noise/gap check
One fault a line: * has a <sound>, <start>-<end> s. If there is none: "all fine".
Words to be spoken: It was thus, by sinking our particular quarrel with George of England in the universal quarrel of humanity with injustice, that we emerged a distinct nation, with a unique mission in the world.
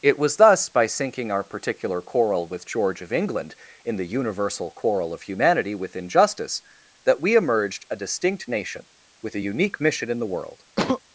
* has a sneeze, 10.8-11.0 s